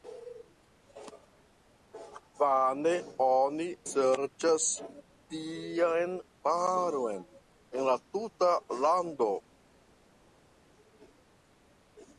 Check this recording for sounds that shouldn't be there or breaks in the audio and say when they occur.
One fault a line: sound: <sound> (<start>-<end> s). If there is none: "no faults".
no faults